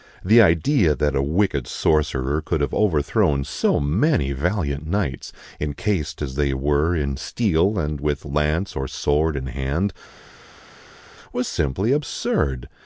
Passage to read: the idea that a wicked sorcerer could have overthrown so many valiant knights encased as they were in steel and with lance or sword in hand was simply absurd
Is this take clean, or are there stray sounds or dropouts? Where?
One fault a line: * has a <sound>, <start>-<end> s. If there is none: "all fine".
all fine